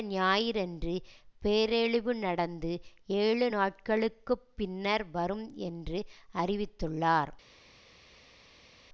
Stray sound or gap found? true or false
false